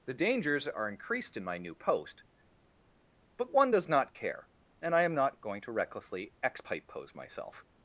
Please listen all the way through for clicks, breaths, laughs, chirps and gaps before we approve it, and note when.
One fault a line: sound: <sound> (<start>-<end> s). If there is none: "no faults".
no faults